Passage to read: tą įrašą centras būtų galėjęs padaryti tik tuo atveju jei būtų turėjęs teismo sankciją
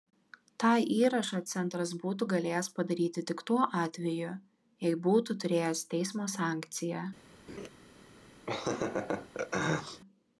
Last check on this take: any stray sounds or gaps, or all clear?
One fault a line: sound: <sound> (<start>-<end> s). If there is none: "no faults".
sound: laugh (7.5-7.7 s)
sound: laugh (8.5-10.0 s)